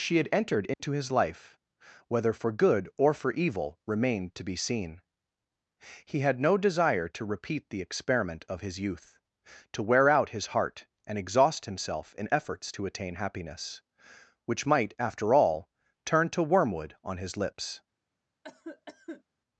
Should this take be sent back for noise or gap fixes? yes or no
yes